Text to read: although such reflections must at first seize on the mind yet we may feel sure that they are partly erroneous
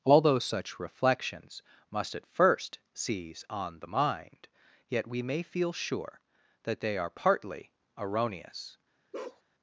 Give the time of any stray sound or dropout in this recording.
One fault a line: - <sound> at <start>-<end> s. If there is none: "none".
- bark at 9.1-9.4 s